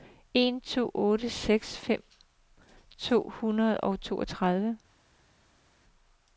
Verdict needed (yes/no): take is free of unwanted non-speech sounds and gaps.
yes